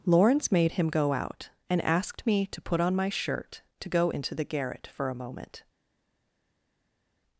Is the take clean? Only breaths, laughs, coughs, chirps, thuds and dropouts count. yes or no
yes